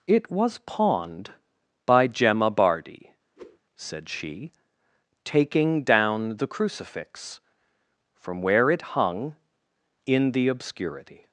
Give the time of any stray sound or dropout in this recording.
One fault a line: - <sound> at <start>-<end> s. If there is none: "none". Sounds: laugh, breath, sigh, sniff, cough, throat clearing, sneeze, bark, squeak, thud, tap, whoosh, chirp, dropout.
- whoosh at 3.4-3.6 s